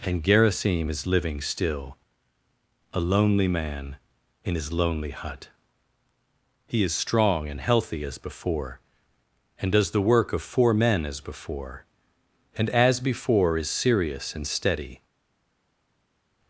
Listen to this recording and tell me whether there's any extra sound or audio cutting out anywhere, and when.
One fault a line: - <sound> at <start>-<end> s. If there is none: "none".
none